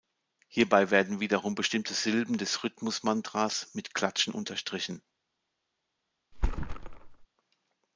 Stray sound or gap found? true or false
true